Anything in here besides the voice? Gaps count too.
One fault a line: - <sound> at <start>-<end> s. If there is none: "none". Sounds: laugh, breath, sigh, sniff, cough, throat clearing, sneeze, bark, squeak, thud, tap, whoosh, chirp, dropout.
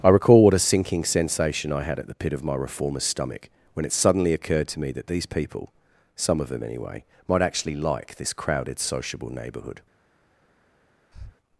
- breath at 11.1-11.4 s